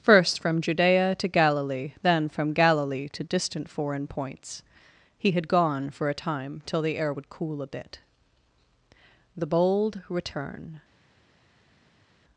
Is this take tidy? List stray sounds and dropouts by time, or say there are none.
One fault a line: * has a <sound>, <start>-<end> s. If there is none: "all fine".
all fine